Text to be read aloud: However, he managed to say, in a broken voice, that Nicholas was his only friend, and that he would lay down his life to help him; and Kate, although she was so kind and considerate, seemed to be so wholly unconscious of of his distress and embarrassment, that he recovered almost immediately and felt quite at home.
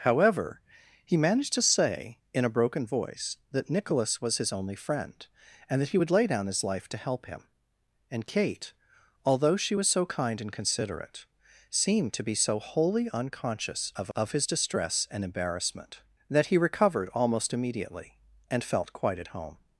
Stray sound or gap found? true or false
false